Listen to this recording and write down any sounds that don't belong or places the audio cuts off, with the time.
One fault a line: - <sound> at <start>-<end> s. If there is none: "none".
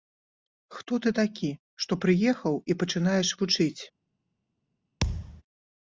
- thud at 5.0-5.4 s